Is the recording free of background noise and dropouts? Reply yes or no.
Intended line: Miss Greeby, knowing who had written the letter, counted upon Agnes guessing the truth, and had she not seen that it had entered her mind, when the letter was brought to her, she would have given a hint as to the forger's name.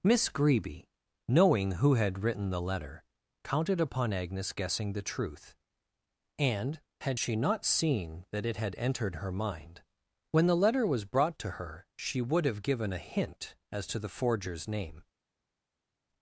yes